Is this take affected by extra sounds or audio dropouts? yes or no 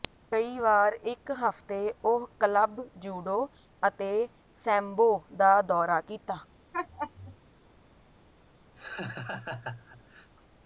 yes